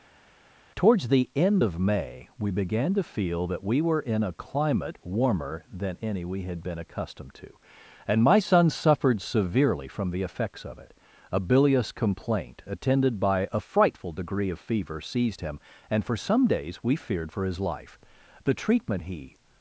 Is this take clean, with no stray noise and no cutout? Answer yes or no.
yes